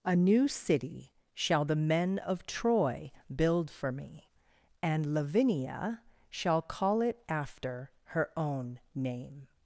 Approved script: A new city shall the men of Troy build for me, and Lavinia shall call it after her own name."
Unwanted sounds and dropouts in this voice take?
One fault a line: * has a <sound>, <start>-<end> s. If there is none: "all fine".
all fine